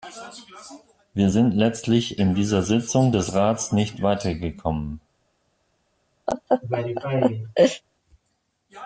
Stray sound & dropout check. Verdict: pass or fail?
fail